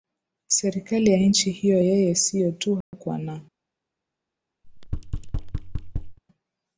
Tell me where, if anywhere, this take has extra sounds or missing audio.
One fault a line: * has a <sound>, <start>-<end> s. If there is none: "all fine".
* has a dropout, 2.8-2.9 s
* has a thud, 4.6-6.2 s